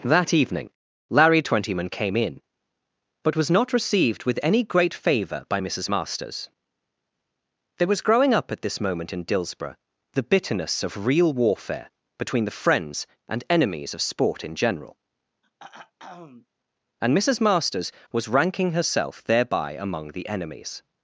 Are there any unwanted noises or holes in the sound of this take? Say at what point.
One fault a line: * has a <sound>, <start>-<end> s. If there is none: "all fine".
* has a throat clearing, 15.4-16.5 s